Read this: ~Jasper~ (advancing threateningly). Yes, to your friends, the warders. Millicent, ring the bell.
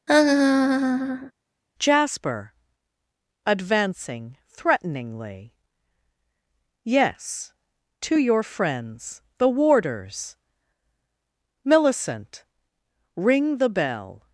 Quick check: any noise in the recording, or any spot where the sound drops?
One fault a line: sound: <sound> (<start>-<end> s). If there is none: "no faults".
sound: laugh (0.1-1.3 s)